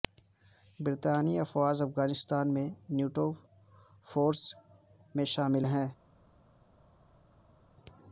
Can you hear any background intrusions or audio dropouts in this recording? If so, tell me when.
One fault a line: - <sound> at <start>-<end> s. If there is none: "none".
none